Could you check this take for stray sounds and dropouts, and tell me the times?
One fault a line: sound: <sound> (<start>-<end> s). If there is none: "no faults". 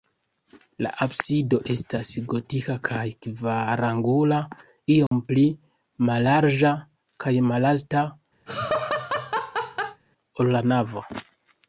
sound: dropout (5.1-5.1 s)
sound: laugh (8.5-10.0 s)